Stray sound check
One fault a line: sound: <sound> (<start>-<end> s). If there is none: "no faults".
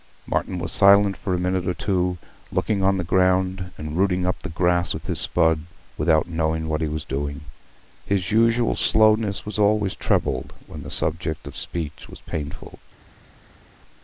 no faults